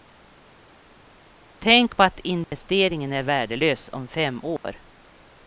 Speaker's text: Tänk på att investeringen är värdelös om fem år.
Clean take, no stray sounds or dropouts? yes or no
no